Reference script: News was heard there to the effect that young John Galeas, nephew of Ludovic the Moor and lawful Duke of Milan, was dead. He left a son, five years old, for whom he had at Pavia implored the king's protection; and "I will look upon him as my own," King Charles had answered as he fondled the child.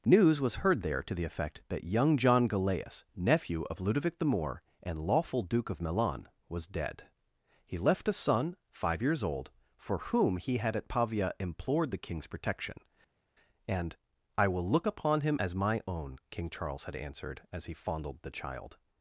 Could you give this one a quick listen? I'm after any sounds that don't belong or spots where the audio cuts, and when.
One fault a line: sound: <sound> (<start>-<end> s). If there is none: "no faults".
no faults